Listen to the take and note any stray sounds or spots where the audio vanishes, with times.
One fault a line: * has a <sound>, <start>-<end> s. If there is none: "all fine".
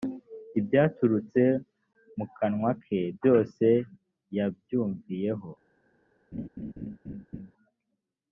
* has a laugh, 6.3-7.5 s